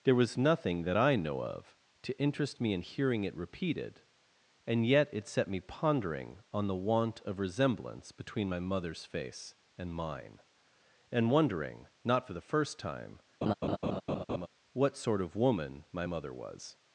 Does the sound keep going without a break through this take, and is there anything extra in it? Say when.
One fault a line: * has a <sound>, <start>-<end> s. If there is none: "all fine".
* has a laugh, 13.4-14.5 s